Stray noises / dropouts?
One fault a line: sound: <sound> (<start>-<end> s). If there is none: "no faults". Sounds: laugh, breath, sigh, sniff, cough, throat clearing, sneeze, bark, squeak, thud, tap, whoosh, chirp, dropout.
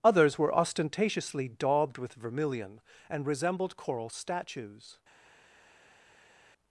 no faults